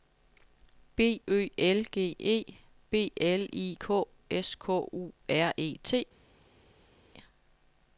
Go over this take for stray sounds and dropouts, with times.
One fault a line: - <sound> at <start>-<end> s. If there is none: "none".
none